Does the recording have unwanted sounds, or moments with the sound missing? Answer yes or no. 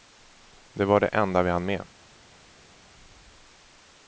no